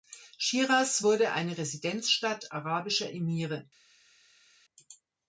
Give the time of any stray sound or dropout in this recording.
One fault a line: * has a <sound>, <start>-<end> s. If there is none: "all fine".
all fine